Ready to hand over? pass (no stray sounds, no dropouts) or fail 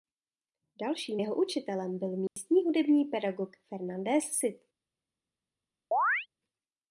fail